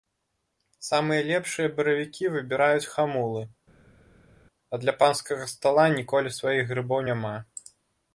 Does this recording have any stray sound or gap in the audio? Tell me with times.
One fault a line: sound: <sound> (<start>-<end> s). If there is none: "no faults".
no faults